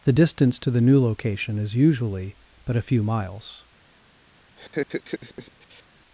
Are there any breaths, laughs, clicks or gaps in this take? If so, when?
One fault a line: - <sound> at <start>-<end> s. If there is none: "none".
- laugh at 4.6-5.8 s